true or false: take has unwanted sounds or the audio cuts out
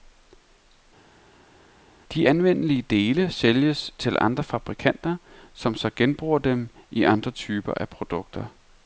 false